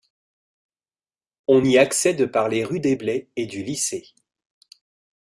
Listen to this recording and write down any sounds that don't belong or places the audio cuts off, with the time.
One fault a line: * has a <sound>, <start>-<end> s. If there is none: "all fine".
all fine